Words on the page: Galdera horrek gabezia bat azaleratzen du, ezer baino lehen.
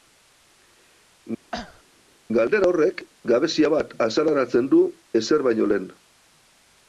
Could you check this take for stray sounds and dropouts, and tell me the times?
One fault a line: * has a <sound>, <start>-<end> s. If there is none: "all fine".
* has a cough, 1.5-1.8 s